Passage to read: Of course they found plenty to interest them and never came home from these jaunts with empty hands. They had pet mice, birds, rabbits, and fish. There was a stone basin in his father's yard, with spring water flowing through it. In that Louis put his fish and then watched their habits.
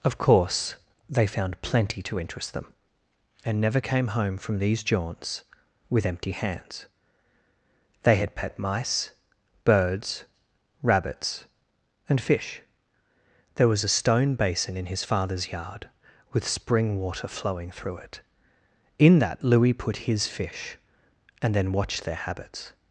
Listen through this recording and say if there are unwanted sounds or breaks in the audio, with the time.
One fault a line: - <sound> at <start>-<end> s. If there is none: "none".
none